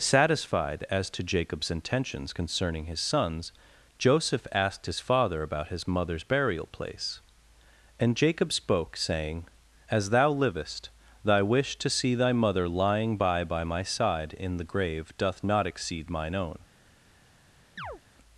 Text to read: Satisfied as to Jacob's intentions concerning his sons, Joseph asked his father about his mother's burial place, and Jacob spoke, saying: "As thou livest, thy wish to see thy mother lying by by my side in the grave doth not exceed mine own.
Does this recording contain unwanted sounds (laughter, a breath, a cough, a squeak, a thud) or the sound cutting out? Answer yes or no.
yes